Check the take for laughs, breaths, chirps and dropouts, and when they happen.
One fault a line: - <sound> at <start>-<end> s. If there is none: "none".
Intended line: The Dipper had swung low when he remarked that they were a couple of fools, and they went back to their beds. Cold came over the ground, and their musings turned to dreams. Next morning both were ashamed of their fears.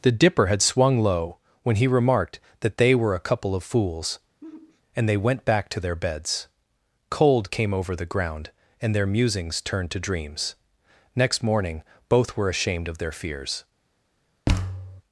- sigh at 4.4-4.8 s
- thud at 14.5-15.0 s